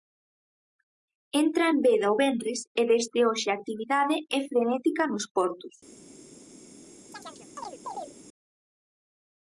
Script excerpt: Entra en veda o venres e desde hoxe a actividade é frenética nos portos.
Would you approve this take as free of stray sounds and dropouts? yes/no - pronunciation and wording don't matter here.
no